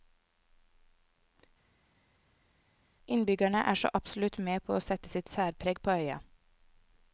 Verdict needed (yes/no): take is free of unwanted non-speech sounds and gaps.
yes